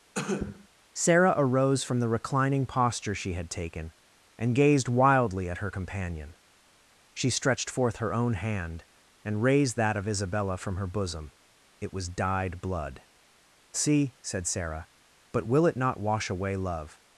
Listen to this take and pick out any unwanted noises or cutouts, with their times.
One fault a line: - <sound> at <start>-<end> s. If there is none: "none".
- cough at 0.1-0.7 s